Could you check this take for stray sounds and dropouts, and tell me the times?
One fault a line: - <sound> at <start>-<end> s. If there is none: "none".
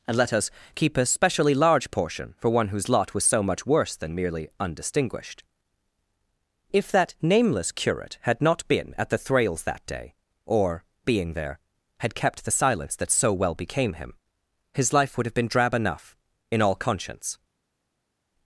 none